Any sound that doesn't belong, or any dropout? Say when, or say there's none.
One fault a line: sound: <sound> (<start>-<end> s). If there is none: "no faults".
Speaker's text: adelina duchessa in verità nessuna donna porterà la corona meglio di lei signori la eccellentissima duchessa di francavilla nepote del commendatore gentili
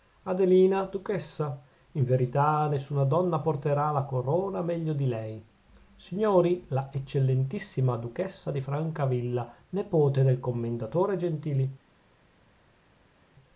no faults